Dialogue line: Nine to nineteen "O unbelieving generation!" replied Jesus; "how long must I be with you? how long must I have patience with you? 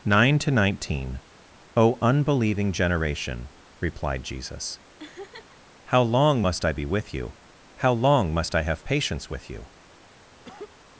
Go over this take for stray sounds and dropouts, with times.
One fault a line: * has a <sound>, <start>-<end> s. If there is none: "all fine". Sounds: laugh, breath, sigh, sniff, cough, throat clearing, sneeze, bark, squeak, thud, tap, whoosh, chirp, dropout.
* has a laugh, 5.0-5.6 s
* has a cough, 10.4-10.8 s